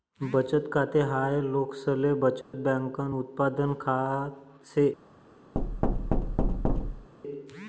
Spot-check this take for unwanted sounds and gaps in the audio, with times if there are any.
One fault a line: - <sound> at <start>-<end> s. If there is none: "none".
- dropout at 2.4-2.5 s
- thud at 5.5-7.1 s